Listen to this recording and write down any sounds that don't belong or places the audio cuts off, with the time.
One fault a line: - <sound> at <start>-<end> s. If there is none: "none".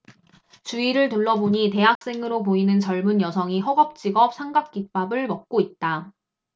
- dropout at 2.0-2.0 s